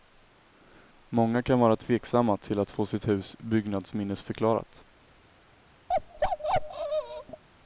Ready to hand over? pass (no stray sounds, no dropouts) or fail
fail